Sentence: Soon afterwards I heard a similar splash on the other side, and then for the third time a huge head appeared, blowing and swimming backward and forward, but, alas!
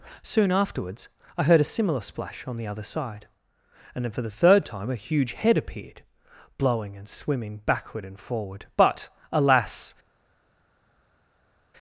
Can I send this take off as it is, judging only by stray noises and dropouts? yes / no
yes